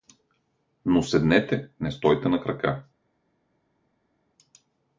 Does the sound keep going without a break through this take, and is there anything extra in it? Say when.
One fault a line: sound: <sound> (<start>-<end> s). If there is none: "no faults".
no faults